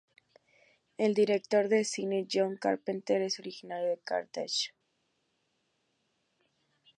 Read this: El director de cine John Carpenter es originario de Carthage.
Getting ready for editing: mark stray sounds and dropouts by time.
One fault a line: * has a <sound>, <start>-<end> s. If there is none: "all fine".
all fine